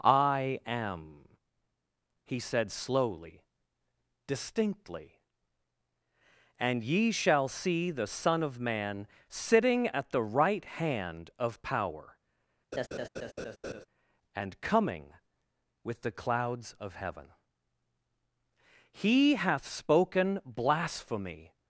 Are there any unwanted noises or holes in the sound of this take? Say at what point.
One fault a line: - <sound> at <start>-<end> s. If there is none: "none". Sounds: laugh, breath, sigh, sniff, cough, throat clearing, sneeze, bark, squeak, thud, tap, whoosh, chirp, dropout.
- laugh at 12.7-13.9 s